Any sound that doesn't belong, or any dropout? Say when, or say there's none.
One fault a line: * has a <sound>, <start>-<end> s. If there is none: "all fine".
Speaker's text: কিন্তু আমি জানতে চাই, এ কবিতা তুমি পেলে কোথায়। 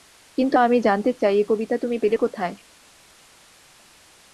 all fine